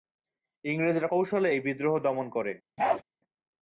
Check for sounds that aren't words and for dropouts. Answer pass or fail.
fail